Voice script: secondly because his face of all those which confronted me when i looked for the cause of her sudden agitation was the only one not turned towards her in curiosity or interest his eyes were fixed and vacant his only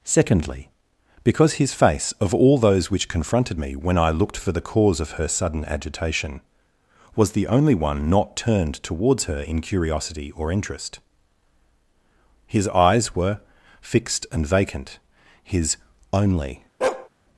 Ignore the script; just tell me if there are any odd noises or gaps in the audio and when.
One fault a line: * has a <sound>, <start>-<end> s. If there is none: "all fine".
* has a bark, 16.8-17.1 s